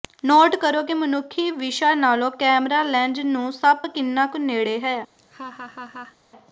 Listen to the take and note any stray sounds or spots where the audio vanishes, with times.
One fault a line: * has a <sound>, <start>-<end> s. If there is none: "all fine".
* has a laugh, 5.2-6.2 s